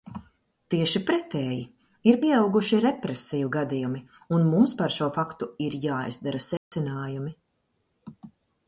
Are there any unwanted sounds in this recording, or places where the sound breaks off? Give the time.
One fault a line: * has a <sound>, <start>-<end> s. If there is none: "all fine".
* has a dropout, 6.6-6.7 s